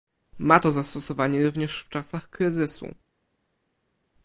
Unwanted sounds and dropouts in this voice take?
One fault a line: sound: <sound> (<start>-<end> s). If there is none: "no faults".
no faults